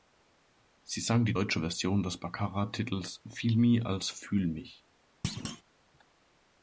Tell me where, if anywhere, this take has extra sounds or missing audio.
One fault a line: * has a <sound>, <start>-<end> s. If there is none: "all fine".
* has a thud, 5.2-5.6 s